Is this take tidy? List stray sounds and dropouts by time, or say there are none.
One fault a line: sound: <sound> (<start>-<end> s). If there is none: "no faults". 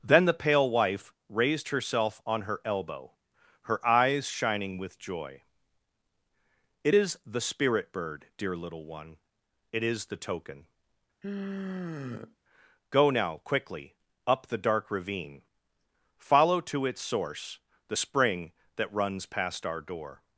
sound: sigh (11.2-12.4 s)